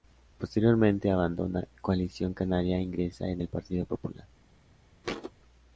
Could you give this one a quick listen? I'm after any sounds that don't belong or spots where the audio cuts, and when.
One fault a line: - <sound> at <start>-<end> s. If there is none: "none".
- thud at 5.0-5.3 s